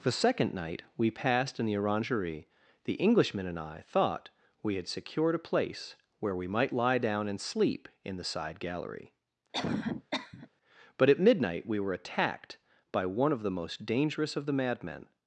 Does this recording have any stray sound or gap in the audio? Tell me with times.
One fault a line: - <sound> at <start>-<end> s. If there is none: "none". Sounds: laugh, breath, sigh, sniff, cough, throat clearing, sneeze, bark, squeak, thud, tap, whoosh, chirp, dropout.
- cough at 9.5-10.5 s